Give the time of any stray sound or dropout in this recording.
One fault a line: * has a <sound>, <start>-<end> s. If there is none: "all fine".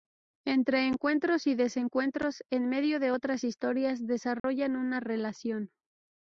* has a dropout, 4.4-4.4 s